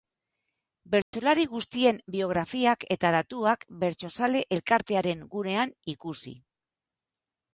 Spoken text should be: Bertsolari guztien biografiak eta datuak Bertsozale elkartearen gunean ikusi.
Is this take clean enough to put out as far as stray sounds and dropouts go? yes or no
no